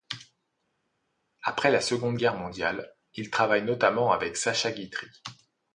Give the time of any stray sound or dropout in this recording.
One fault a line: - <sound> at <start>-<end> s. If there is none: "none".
none